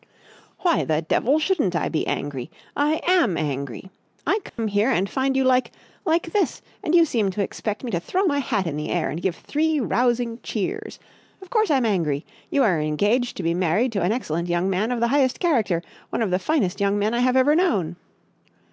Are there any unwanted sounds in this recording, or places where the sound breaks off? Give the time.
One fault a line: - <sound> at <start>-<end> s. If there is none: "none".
- dropout at 4.5-4.6 s